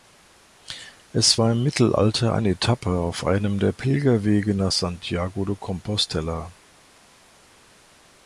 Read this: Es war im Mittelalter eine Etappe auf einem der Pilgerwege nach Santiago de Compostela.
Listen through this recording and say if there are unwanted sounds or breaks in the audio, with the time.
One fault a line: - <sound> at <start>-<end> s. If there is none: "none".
none